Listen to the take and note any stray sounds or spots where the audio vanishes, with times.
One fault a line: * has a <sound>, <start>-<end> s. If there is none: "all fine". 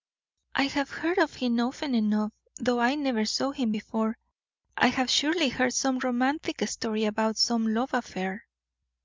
all fine